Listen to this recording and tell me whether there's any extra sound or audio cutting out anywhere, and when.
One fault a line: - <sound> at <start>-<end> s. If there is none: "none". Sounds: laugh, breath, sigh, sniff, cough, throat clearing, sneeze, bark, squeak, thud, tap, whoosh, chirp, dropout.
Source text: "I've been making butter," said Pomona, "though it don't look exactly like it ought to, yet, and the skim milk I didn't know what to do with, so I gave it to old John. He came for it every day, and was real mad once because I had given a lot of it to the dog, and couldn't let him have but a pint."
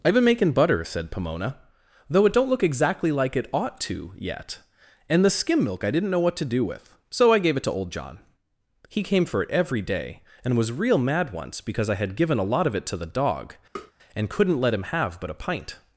- tap at 13.8-13.9 s